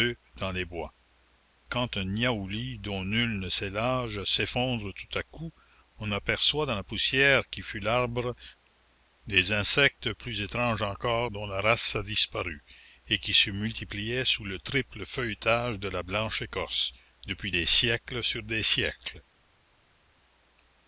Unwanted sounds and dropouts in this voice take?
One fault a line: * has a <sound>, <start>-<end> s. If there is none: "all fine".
all fine